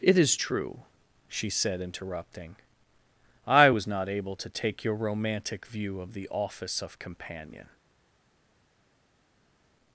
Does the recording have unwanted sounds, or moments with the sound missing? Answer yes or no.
no